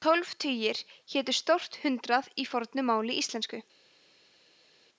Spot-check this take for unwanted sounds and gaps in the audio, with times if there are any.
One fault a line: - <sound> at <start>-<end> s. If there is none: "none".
none